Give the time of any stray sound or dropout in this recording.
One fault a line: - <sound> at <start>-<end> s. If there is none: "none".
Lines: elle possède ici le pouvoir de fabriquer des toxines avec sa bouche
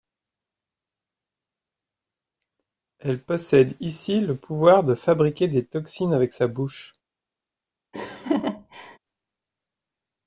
- laugh at 7.9-9.0 s